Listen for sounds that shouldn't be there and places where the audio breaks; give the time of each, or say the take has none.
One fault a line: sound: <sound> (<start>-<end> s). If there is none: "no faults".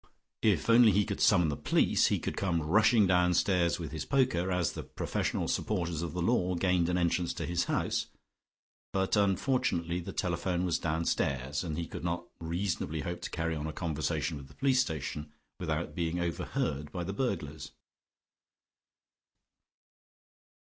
no faults